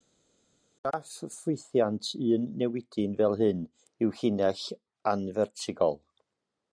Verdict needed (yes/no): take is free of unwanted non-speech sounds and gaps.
yes